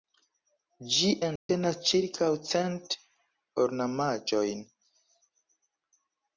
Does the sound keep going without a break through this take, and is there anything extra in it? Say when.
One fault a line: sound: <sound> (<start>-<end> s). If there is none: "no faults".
sound: dropout (1.4-1.5 s)